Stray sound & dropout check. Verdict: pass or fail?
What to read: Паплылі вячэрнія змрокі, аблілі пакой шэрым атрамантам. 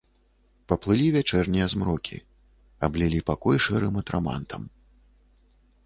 pass